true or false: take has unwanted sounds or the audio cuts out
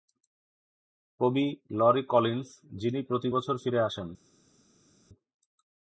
false